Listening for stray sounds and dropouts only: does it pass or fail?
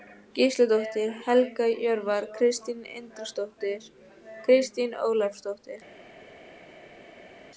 pass